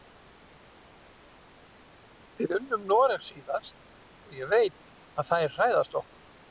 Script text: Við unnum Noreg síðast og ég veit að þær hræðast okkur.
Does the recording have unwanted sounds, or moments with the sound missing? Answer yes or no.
no